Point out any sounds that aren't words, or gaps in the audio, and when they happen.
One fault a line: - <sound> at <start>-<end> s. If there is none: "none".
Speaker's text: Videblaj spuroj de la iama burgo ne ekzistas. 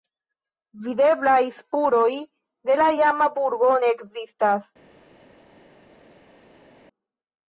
none